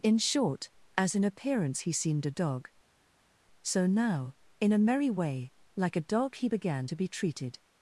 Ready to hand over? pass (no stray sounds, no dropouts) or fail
pass